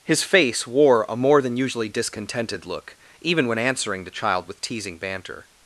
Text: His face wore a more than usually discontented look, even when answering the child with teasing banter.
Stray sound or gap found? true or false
false